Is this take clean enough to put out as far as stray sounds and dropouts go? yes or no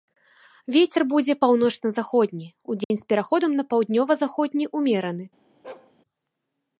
no